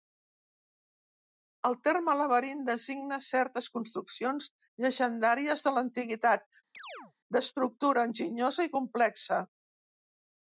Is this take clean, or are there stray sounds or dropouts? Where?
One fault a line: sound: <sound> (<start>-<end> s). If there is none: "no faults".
sound: chirp (6.7-7.1 s)